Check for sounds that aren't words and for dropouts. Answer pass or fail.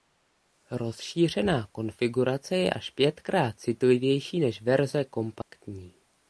fail